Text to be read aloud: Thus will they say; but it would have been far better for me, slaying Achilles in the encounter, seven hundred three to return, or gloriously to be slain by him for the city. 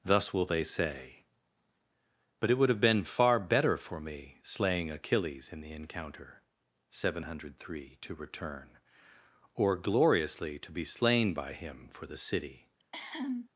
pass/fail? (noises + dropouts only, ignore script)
fail